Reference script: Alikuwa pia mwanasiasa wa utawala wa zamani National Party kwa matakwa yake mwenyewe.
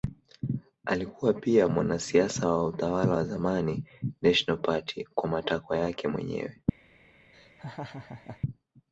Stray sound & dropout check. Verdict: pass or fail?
fail